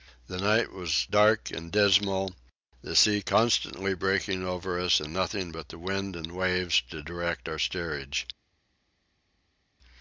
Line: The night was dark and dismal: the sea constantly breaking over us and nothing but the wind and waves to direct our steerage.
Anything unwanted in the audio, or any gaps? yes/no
no